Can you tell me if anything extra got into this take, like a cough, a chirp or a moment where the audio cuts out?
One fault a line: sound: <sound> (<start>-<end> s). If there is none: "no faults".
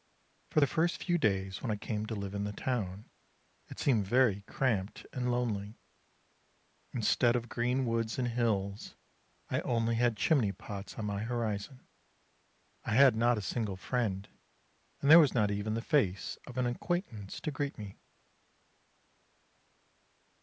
no faults